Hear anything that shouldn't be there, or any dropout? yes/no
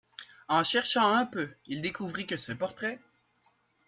no